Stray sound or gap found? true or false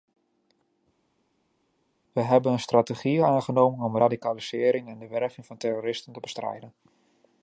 false